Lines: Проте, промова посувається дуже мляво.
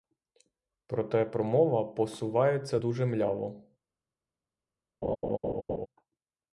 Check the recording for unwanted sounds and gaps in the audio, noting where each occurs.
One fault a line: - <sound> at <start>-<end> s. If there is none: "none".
- laugh at 5.0-5.9 s